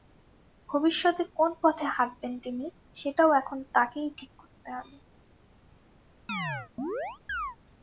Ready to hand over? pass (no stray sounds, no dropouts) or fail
fail